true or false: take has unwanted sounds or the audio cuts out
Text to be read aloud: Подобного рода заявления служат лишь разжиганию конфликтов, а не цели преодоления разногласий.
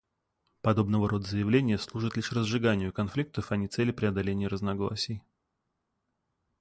false